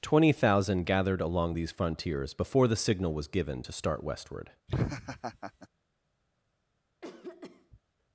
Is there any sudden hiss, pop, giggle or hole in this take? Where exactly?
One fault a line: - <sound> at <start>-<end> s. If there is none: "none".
- laugh at 4.7-5.7 s
- cough at 7.0-7.8 s